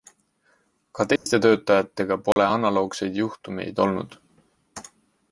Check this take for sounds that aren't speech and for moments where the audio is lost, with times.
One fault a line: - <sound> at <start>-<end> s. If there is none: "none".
- dropout at 1.2-1.3 s
- dropout at 2.3-2.4 s